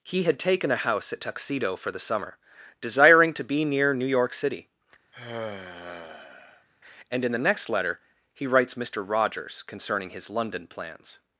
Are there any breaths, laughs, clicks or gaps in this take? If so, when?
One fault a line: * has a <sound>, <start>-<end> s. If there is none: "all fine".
* has a sigh, 5.1-6.7 s